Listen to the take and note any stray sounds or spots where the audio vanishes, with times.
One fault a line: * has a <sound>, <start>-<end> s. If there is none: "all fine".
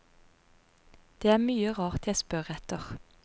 all fine